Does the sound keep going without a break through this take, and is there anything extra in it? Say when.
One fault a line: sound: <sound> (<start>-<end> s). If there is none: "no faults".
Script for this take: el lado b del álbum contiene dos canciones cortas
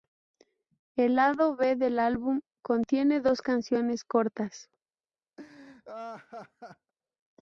sound: laugh (5.4-6.9 s)